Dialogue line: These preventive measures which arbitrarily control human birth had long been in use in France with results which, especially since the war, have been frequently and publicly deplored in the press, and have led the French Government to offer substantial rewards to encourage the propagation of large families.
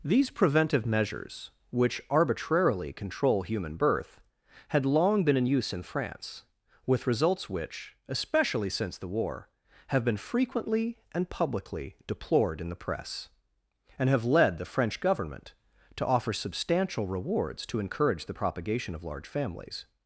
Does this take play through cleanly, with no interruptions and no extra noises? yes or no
yes